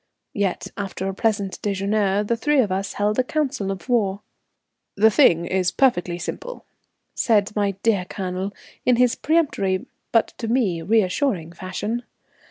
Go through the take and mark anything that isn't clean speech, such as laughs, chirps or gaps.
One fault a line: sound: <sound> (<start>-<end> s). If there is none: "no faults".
no faults